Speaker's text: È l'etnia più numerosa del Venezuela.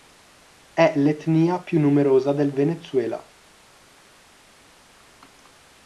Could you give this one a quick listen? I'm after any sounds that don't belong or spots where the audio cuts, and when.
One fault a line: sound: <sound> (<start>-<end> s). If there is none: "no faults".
no faults